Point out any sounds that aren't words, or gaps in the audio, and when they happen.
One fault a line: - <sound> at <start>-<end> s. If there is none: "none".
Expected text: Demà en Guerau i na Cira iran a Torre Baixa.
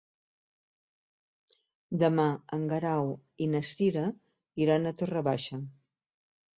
none